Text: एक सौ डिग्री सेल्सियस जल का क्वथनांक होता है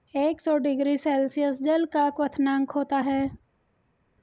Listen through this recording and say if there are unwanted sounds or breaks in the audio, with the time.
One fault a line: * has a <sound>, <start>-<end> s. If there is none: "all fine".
all fine